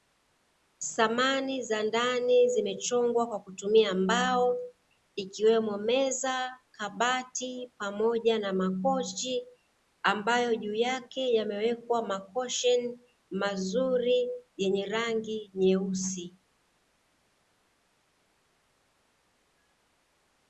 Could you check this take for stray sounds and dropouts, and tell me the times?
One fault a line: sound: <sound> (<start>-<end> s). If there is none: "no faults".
no faults